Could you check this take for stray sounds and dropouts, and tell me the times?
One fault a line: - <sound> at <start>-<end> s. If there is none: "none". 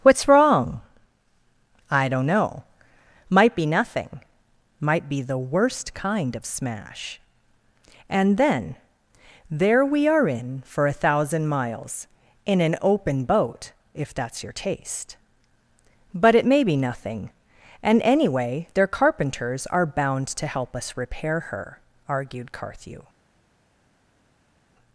none